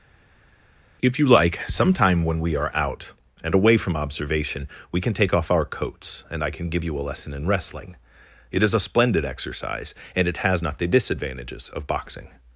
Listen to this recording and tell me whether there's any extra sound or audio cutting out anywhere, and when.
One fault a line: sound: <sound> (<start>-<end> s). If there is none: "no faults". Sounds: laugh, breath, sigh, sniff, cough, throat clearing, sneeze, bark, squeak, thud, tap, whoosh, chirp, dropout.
no faults